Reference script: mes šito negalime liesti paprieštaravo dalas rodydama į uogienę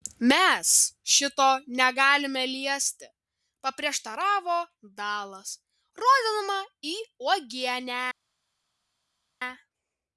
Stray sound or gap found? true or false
false